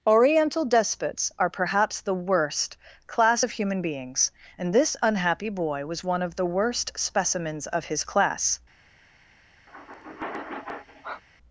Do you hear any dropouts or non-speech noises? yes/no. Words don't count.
yes